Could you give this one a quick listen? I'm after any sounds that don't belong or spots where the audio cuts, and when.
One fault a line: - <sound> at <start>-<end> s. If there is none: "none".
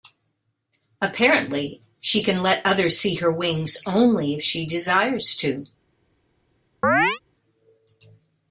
- chirp at 6.8-7.2 s